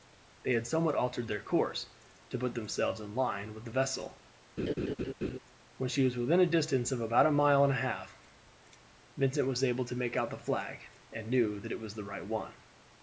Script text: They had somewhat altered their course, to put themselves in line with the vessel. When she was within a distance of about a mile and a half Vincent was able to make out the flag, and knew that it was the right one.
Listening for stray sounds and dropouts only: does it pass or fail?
fail